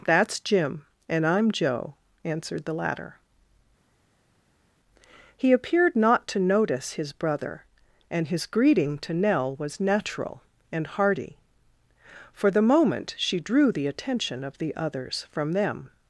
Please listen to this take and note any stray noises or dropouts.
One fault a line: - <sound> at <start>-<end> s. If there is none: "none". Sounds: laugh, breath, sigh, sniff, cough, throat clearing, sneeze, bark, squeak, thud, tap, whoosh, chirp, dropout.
none